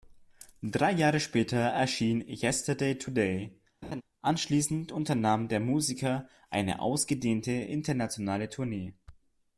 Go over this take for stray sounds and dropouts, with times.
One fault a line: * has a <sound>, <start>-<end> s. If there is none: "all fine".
* has a laugh, 3.8-4.0 s